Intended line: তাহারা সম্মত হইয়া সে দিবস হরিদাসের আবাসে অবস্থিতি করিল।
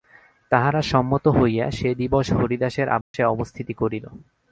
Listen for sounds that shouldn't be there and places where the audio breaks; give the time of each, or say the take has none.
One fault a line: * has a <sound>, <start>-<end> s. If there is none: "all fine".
* has a dropout, 3.0-3.1 s